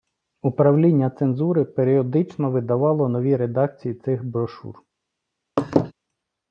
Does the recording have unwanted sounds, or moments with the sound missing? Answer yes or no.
yes